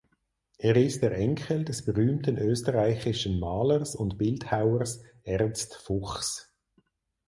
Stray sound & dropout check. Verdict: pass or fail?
pass